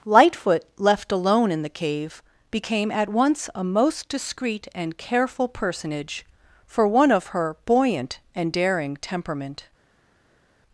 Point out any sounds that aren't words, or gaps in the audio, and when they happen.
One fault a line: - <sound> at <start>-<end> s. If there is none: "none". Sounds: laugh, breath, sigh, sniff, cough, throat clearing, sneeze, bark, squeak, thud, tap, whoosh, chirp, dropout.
none